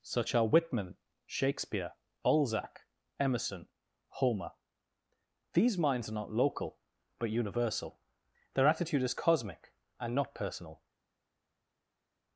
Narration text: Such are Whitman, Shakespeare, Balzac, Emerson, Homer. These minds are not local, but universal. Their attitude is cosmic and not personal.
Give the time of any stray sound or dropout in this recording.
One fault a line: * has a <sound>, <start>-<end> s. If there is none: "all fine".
all fine